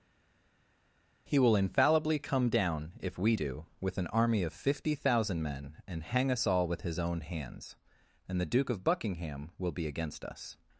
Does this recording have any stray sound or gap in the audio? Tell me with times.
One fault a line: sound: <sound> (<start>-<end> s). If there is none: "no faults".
no faults